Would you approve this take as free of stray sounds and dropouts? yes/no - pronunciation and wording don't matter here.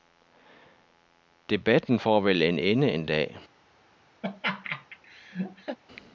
no